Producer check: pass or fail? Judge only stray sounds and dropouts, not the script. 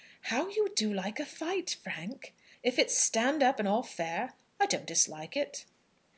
pass